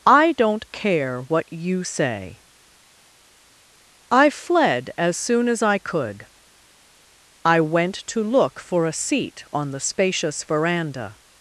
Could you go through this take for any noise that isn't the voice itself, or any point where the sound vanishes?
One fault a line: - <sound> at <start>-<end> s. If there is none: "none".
none